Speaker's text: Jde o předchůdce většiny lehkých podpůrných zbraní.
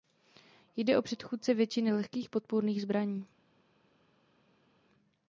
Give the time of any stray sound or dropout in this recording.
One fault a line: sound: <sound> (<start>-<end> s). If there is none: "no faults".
no faults